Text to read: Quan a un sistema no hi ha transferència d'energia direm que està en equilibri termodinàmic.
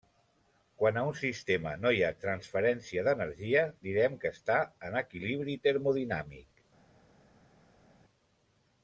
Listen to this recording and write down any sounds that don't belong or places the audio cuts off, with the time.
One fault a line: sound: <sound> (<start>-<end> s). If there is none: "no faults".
no faults